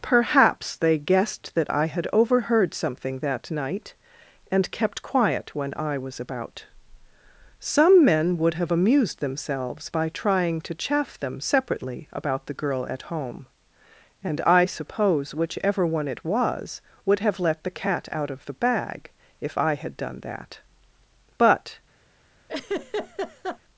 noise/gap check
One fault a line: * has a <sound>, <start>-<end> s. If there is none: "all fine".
* has a laugh, 22.5-23.6 s